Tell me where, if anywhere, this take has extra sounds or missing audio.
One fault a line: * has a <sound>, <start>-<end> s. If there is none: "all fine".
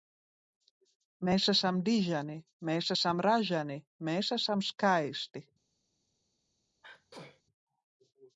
* has a sneeze, 6.8-7.4 s